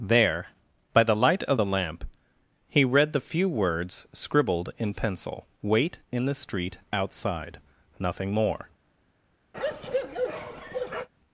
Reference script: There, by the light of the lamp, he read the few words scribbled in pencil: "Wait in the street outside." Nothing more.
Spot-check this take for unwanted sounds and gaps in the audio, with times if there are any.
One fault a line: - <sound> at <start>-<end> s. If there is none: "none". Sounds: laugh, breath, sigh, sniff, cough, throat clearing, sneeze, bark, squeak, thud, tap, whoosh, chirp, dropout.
- bark at 9.5-11.1 s